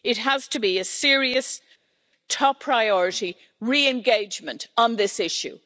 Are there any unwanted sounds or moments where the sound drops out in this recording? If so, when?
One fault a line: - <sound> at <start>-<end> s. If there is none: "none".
none